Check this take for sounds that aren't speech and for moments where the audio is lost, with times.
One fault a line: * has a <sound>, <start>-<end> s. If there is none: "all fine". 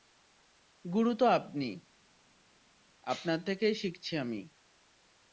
all fine